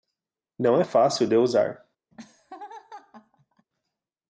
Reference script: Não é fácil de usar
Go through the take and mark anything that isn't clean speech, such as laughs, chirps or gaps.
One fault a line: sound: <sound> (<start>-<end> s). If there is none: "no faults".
sound: laugh (2.1-3.7 s)